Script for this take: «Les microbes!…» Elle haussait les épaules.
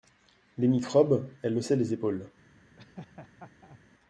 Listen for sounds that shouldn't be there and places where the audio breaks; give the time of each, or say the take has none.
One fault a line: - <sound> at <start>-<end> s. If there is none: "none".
- laugh at 2.8-3.8 s